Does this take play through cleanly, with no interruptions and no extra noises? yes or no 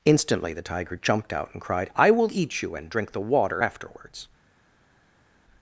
yes